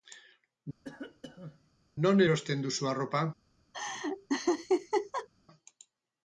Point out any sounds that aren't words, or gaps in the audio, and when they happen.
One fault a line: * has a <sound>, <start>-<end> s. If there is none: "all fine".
* has a cough, 0.8-1.7 s
* has a laugh, 3.7-5.3 s